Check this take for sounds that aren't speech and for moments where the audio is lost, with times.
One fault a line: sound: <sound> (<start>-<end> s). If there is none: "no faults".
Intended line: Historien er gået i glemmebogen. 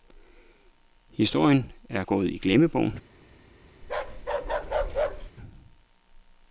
sound: bark (3.8-5.3 s)